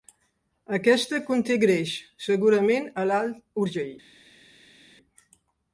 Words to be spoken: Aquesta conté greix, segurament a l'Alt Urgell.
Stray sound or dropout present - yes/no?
no